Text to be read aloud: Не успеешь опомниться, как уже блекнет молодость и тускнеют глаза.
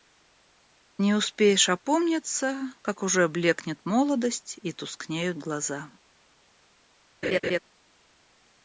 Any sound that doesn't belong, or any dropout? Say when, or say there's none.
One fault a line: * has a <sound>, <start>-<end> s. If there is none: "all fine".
* has a laugh, 7.2-7.6 s